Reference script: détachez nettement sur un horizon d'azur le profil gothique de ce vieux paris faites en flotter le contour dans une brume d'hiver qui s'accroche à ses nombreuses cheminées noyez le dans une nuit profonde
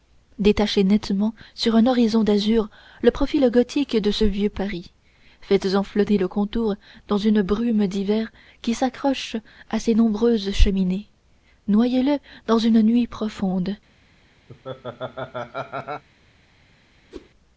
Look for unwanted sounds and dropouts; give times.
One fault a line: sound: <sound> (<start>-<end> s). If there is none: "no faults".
sound: laugh (14.5-16.0 s)
sound: whoosh (17.1-17.3 s)